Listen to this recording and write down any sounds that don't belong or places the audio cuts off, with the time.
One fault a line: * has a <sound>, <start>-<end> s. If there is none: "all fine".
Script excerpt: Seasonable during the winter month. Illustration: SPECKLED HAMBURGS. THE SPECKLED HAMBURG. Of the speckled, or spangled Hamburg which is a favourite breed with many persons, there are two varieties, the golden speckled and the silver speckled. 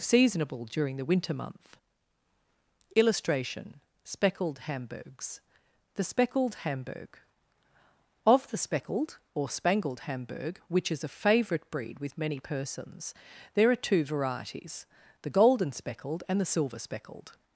all fine